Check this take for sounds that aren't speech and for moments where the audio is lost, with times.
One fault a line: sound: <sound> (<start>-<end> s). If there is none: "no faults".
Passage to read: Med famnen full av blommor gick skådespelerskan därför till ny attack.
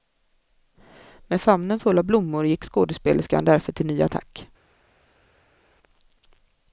no faults